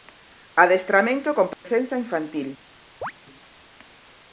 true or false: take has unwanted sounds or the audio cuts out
true